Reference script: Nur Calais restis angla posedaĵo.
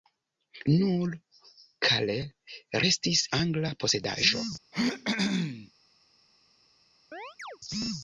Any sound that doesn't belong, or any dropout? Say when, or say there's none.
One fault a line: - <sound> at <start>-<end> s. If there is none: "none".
- throat clearing at 4.7-5.7 s
- chirp at 7.1-7.6 s